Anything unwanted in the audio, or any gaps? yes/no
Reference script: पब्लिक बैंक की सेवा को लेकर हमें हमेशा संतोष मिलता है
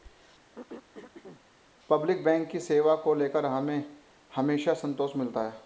yes